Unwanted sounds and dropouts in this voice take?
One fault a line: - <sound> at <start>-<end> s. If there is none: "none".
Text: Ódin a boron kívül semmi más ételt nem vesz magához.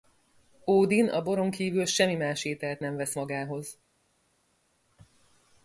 none